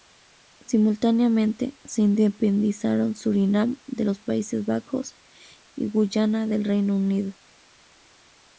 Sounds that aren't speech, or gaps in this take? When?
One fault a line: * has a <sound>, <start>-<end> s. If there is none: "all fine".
all fine